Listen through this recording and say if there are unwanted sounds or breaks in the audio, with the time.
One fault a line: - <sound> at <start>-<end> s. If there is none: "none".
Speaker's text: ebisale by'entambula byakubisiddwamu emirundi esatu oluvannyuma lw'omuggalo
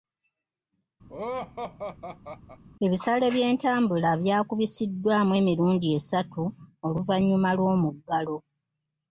- laugh at 1.1-2.6 s